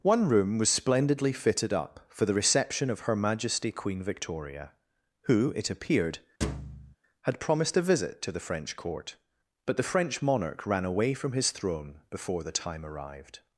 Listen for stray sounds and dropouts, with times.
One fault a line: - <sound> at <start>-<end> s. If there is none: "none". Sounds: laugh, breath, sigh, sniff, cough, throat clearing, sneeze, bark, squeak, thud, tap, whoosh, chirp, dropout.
- thud at 6.4-7.0 s